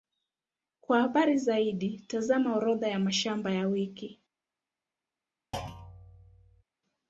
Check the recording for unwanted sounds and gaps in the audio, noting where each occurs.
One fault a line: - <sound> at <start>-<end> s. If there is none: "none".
- thud at 5.5-6.6 s